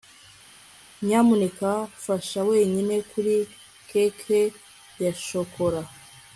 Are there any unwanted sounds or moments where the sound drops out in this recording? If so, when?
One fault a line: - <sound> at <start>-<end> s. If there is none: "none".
none